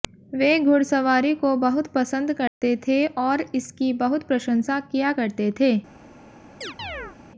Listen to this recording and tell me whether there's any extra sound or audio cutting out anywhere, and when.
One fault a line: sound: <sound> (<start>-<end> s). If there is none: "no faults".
sound: dropout (2.5-2.6 s)
sound: chirp (6.6-7.2 s)